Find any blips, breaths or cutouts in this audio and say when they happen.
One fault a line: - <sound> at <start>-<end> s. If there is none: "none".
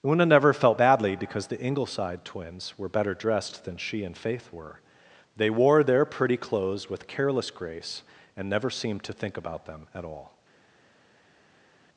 none